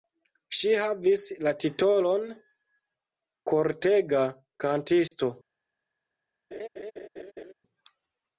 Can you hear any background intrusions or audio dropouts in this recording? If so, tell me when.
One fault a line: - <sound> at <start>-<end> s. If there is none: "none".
- dropout at 5.1-5.1 s
- laugh at 6.5-7.5 s